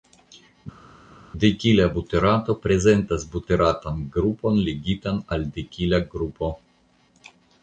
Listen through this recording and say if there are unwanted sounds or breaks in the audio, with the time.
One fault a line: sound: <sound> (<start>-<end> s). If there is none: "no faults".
no faults